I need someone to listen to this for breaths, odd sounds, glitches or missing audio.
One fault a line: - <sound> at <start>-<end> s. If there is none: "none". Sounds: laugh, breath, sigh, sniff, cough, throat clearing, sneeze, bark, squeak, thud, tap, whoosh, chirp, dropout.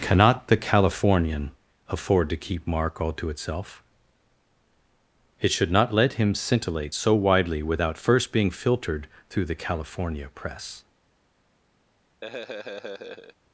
- laugh at 12.2-13.4 s